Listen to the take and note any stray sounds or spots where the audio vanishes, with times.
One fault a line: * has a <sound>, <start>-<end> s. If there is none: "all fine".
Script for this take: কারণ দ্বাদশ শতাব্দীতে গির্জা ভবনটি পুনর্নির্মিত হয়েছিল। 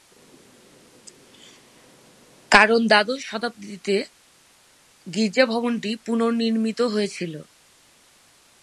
all fine